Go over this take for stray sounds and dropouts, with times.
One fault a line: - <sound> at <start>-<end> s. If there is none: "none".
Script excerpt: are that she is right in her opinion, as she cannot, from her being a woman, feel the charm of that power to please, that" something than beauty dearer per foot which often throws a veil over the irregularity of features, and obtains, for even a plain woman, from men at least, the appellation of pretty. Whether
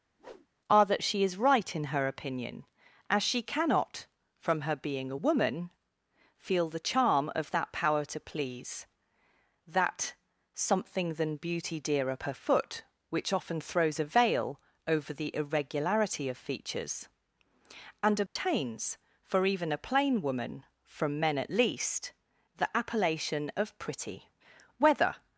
- whoosh at 0.2-0.5 s
- dropout at 18.3-18.4 s